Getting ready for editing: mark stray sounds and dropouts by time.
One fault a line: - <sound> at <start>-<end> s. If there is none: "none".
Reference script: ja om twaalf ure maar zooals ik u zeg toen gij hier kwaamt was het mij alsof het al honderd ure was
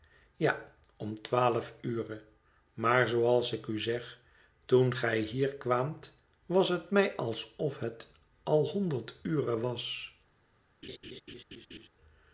- laugh at 10.8-11.9 s